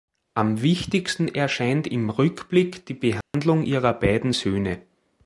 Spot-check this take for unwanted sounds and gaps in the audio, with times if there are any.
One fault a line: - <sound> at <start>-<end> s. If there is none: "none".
- dropout at 3.2-3.3 s